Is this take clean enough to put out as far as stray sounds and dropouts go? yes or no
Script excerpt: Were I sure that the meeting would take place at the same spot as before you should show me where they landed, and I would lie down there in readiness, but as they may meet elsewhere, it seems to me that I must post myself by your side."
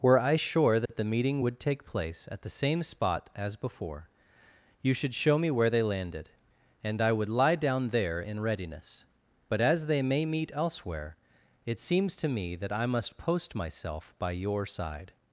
no